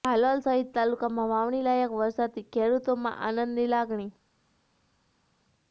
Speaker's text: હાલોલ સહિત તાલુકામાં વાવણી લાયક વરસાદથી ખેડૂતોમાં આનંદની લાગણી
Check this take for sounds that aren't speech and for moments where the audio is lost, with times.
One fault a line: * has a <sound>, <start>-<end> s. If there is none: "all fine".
all fine